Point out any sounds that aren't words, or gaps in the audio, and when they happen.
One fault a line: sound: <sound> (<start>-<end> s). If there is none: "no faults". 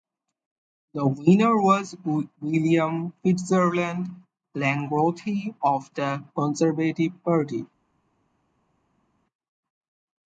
no faults